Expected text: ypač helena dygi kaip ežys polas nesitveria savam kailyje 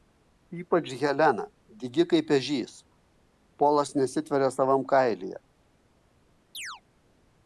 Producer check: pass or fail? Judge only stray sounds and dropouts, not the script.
fail